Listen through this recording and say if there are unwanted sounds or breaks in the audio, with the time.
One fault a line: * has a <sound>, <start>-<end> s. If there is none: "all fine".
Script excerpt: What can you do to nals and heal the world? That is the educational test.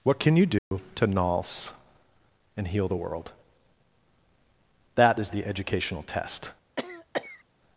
* has a dropout, 0.6-0.7 s
* has a cough, 6.8-7.4 s